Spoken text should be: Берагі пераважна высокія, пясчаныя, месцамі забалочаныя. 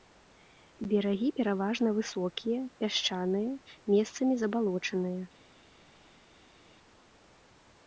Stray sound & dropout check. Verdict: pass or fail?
pass